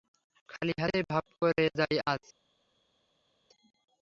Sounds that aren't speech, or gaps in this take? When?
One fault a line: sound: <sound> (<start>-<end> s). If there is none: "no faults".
no faults